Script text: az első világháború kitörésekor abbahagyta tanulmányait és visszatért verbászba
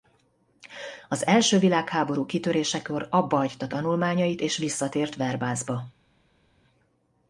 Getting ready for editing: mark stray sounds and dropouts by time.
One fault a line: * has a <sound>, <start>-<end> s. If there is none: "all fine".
all fine